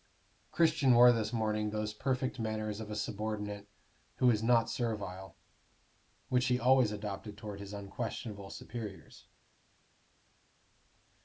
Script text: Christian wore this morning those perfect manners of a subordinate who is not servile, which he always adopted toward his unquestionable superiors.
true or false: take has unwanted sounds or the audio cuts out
false